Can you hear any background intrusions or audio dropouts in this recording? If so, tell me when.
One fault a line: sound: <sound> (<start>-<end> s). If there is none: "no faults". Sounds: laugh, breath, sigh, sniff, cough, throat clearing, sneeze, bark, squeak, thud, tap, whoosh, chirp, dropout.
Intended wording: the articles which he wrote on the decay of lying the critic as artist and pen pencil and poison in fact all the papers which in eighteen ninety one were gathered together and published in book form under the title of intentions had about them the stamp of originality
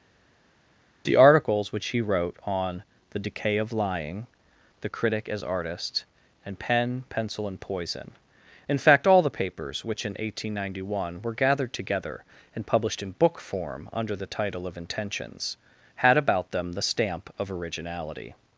no faults